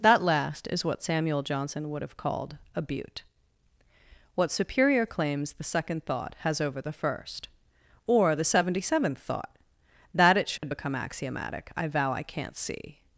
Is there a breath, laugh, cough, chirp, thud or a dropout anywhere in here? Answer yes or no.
yes